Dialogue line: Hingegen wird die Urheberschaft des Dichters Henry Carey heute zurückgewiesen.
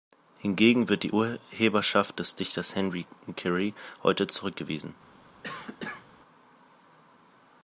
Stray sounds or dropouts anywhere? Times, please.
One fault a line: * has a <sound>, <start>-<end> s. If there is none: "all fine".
* has a cough, 5.4-6.1 s